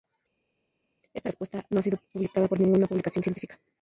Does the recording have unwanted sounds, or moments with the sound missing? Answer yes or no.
no